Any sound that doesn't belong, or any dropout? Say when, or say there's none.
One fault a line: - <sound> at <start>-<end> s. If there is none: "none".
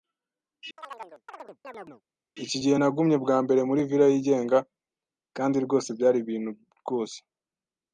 - chirp at 0.8-2.0 s